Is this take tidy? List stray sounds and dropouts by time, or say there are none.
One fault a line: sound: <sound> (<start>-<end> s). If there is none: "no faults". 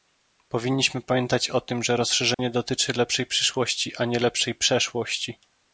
sound: dropout (2.3-2.4 s)